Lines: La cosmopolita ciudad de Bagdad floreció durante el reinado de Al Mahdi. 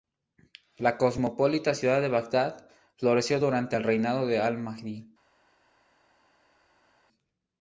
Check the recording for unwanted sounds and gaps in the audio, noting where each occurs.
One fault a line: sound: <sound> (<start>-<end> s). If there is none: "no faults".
no faults